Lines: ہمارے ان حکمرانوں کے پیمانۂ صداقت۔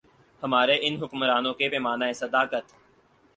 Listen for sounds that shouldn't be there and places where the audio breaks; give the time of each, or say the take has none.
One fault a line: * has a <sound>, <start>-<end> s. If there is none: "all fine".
all fine